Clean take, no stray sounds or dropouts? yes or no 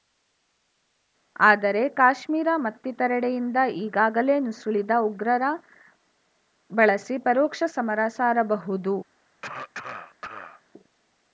no